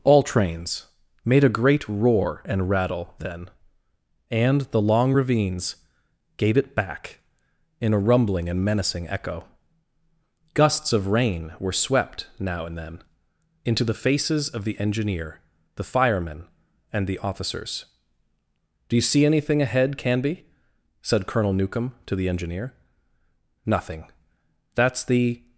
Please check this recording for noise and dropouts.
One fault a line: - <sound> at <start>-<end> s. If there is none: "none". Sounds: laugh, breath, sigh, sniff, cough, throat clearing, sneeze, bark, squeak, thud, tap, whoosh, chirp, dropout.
none